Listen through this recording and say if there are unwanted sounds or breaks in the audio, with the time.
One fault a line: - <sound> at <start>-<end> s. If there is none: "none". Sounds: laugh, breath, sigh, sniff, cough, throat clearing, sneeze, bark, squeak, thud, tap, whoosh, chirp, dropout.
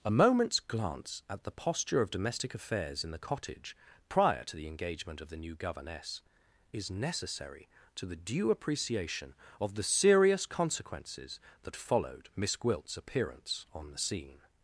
none